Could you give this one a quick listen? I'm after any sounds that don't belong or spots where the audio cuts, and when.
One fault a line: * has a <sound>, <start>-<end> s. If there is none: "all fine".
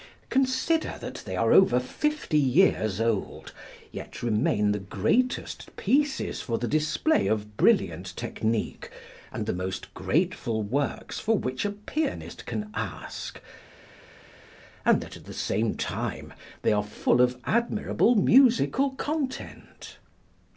all fine